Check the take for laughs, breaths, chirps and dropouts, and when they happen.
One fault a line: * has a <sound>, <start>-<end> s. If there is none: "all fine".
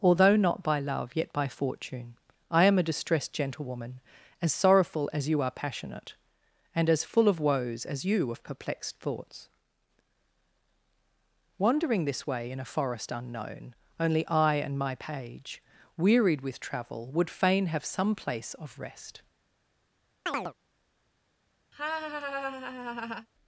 * has a chirp, 20.3-20.5 s
* has a laugh, 21.7-23.3 s